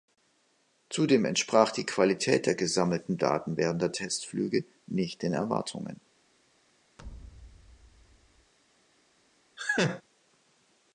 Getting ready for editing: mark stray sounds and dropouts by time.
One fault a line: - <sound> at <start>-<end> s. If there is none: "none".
- thud at 7.0-8.5 s
- laugh at 9.6-10.0 s